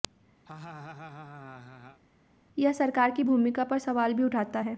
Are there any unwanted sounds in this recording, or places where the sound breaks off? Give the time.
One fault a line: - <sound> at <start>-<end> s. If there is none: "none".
- laugh at 0.5-2.0 s